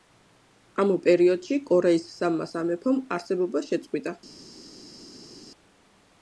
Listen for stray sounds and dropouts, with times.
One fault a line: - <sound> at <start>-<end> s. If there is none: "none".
none